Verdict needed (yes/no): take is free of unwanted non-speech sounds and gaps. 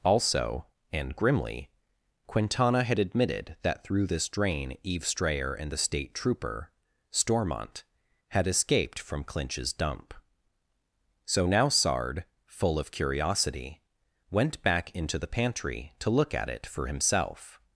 yes